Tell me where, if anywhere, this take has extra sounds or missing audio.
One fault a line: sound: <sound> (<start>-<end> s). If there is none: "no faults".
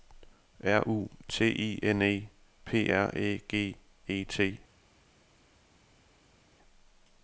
no faults